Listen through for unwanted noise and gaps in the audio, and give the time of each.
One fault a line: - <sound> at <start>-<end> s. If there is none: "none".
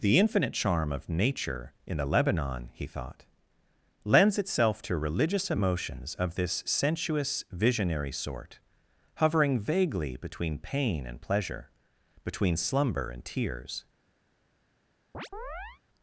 - chirp at 15.1-15.8 s